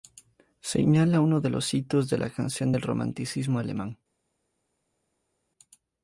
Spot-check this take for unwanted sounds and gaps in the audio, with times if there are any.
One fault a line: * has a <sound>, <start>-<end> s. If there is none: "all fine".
all fine